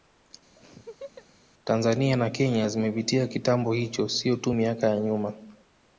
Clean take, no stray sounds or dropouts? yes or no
no